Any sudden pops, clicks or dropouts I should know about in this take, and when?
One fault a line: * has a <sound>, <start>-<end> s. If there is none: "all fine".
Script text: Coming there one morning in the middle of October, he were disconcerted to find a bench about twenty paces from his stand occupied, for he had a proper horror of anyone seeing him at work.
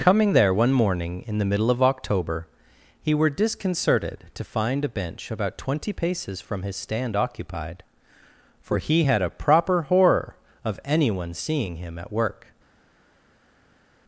all fine